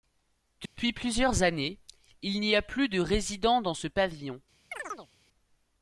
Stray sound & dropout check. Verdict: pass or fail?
fail